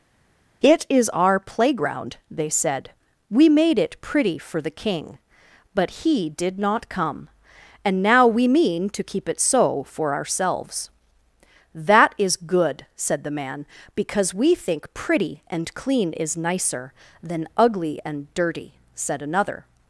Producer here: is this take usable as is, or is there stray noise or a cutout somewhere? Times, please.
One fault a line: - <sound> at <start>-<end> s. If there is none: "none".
none